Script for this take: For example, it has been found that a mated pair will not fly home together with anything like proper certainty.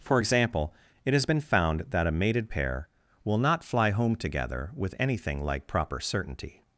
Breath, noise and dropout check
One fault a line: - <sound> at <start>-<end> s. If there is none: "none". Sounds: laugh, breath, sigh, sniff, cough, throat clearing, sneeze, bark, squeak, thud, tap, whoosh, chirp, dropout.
none